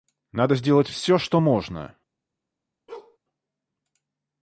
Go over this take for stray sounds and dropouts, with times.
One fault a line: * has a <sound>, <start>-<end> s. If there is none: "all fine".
* has a bark, 2.9-3.2 s